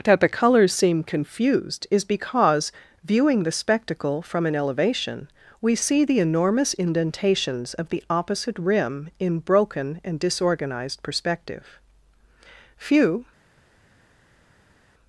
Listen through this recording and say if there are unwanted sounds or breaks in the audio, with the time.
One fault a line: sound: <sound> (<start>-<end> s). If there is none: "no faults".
no faults